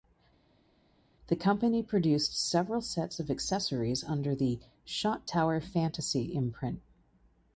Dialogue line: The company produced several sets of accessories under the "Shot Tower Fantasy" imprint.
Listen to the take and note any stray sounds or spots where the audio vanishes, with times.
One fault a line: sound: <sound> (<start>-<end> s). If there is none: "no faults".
no faults